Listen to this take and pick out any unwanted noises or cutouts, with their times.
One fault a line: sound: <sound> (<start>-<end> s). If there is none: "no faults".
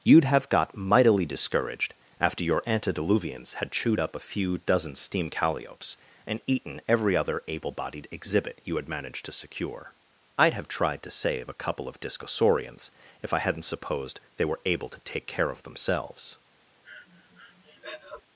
sound: breath (16.8-18.2 s)